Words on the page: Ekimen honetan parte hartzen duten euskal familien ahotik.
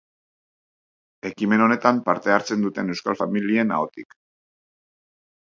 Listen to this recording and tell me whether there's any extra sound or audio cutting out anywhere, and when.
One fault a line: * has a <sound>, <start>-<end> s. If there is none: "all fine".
all fine